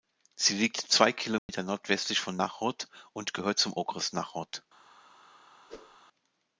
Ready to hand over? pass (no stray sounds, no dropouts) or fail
fail